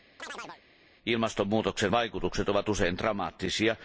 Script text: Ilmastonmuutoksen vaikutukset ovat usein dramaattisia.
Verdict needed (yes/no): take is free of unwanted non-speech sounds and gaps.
no